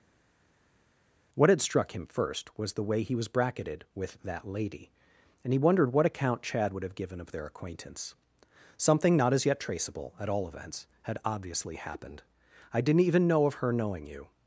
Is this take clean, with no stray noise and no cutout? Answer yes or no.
yes